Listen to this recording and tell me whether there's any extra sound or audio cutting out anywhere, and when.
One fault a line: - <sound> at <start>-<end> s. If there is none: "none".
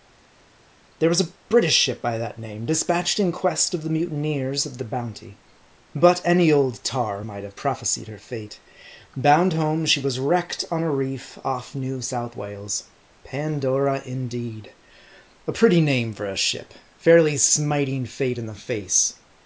none